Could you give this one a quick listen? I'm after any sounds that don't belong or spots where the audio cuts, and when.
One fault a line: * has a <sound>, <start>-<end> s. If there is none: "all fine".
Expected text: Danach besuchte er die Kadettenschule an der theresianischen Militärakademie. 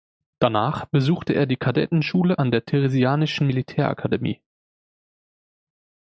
all fine